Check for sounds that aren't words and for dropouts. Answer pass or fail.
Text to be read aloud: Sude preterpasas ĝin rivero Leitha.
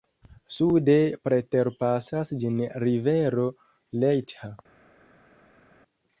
pass